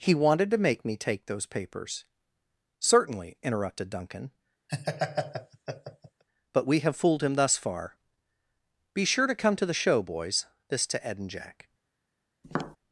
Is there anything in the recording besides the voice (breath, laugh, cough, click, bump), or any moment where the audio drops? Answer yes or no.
yes